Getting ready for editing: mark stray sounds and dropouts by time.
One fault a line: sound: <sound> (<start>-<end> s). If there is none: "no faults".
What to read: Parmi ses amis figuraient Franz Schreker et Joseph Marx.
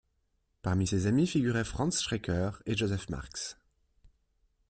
no faults